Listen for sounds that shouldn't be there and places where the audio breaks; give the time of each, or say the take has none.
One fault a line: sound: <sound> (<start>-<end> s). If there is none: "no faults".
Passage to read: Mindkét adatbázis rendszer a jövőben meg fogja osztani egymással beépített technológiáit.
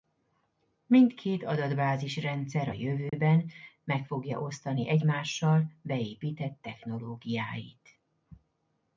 sound: dropout (3.1-3.1 s)